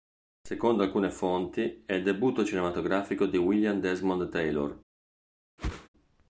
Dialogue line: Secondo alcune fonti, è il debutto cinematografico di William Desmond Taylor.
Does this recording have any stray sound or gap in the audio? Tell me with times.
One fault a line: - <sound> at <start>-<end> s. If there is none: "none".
- whoosh at 5.6-5.9 s